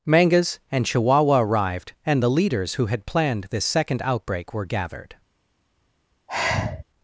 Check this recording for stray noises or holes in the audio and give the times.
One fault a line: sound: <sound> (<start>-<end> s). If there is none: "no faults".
sound: sigh (6.3-6.8 s)